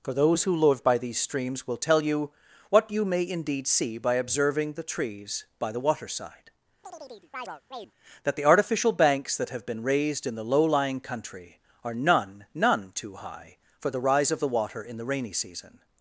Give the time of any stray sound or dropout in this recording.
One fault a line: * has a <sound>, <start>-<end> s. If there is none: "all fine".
* has a chirp, 6.8-7.9 s